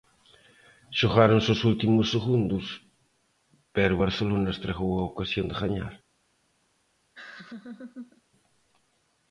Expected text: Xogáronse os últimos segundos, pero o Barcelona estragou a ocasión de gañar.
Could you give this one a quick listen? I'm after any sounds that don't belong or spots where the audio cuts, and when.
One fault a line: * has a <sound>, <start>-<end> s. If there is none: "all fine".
* has a laugh, 7.1-8.2 s